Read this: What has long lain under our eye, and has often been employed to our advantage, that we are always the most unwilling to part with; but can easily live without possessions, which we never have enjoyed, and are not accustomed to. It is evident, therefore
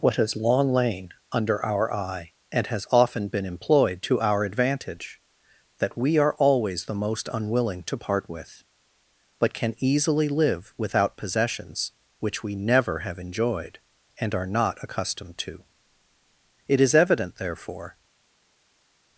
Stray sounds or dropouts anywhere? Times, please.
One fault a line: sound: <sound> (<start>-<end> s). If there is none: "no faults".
no faults